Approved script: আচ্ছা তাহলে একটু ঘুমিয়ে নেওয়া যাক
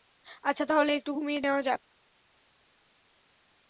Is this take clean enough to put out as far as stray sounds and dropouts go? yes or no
yes